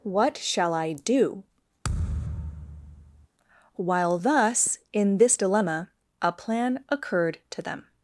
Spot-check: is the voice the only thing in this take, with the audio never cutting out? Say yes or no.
no